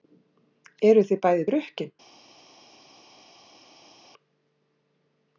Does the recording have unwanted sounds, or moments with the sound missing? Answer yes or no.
no